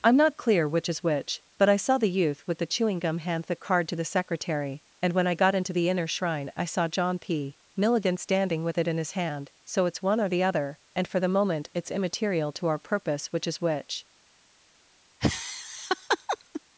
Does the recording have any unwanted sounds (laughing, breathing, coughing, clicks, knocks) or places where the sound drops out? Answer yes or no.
yes